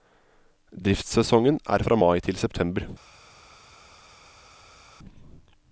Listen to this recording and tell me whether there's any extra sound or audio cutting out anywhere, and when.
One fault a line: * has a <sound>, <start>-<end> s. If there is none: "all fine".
all fine